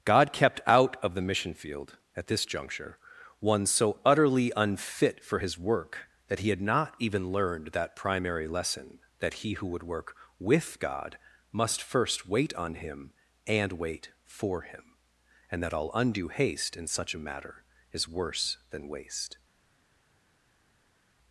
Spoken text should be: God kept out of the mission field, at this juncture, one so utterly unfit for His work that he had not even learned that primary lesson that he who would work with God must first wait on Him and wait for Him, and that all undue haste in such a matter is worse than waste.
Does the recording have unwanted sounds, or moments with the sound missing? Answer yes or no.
no